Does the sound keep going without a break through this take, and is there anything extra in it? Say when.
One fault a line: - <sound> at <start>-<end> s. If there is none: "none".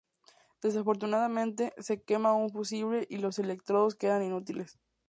none